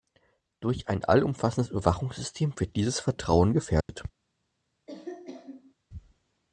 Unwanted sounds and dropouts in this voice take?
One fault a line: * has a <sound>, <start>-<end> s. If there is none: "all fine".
* has a dropout, 3.8-3.9 s
* has a cough, 4.9-5.7 s